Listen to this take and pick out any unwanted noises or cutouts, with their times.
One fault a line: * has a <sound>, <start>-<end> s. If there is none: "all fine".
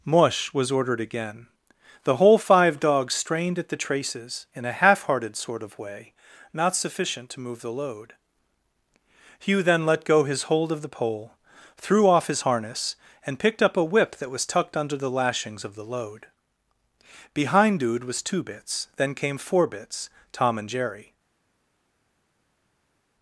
all fine